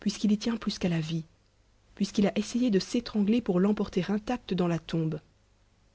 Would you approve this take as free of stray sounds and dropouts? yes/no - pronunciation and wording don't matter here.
yes